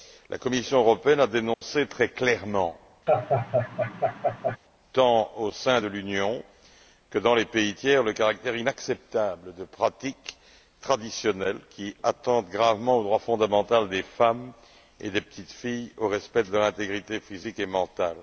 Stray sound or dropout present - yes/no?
yes